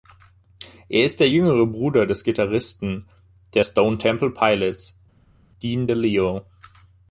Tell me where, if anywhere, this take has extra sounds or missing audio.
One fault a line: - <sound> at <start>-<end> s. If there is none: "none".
none